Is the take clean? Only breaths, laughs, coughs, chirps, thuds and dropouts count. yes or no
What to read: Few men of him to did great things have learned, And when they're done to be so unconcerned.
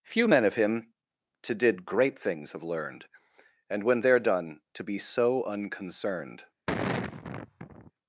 no